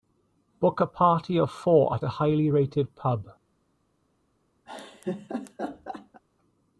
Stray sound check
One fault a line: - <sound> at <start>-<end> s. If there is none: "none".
- laugh at 4.7-6.2 s